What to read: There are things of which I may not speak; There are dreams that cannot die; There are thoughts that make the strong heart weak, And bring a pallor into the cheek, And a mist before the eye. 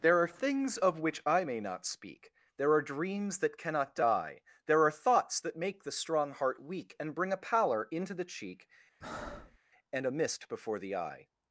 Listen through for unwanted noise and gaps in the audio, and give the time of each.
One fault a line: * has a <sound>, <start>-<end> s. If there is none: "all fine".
* has a breath, 9.0-9.6 s